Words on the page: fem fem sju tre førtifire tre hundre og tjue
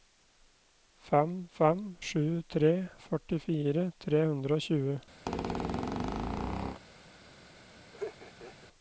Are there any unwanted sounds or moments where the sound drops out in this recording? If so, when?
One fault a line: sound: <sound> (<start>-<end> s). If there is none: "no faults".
sound: squeak (5.3-6.8 s)
sound: laugh (7.9-8.7 s)